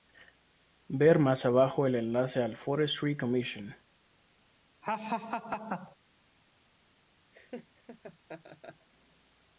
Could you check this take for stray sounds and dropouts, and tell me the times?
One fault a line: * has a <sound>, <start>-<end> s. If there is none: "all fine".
* has a laugh, 4.8-6.0 s
* has a laugh, 7.3-8.9 s